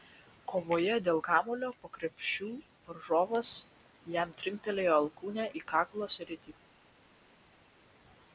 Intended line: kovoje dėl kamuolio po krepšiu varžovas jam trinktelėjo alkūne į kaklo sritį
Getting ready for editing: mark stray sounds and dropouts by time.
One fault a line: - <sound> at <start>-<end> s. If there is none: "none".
none